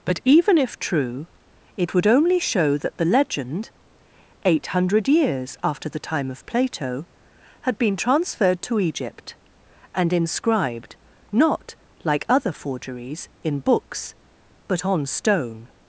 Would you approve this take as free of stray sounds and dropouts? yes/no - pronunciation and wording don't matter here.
yes